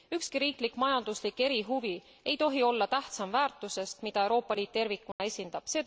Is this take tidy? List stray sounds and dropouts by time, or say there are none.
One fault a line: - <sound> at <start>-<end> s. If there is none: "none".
- dropout at 5.1-5.2 s